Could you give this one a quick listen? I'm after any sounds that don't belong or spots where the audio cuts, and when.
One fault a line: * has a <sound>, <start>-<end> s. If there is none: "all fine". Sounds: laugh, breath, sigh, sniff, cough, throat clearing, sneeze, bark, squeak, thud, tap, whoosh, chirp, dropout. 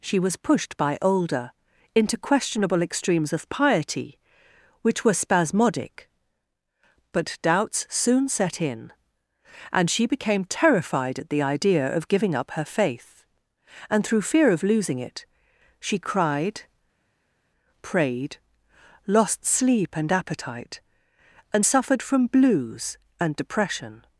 all fine